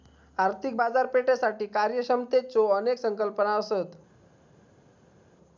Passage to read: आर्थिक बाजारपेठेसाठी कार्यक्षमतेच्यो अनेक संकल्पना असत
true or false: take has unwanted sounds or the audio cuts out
false